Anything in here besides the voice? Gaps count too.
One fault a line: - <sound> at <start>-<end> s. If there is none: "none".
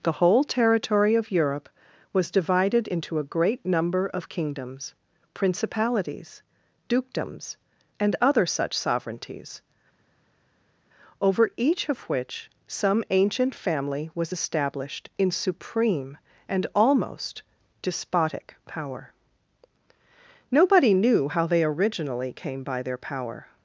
none